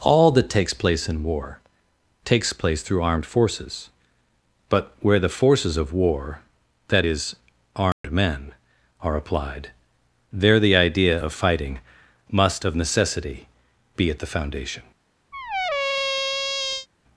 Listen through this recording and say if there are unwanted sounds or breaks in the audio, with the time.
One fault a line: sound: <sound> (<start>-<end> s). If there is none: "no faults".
sound: dropout (7.9-8.0 s)
sound: squeak (15.3-16.9 s)